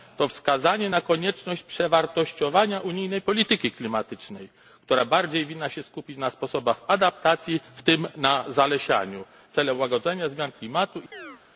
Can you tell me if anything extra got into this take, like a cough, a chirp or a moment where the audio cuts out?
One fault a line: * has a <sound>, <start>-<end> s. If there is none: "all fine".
* has a chirp, 11.1-11.4 s